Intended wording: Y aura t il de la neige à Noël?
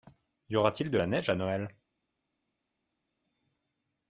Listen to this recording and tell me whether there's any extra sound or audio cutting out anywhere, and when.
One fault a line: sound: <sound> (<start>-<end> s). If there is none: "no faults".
no faults